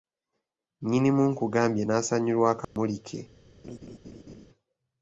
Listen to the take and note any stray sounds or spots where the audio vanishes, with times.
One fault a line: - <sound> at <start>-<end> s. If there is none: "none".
- dropout at 2.6-2.8 s
- laugh at 3.6-4.5 s